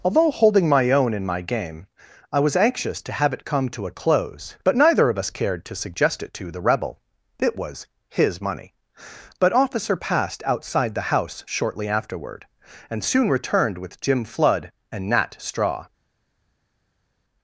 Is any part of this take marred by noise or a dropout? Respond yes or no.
no